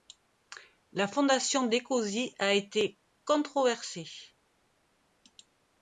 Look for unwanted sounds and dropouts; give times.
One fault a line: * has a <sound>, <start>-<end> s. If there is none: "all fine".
all fine